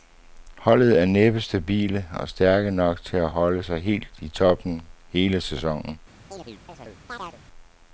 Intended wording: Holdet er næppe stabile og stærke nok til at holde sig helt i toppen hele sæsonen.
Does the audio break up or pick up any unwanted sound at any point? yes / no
yes